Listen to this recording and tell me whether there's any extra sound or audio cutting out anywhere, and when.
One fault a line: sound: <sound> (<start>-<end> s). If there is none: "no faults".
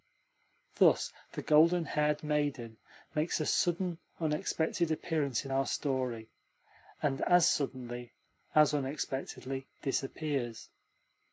no faults